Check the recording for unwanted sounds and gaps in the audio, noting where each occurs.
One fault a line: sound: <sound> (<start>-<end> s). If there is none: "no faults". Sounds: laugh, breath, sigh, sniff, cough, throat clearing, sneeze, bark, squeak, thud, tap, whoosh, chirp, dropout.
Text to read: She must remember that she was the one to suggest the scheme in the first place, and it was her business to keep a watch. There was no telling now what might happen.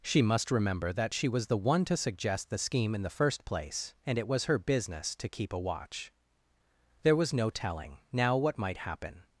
no faults